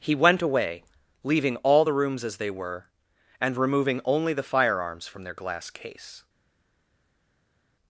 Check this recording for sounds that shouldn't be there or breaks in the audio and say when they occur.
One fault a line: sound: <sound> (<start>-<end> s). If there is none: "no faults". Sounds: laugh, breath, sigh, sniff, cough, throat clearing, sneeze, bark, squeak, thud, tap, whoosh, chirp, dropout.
no faults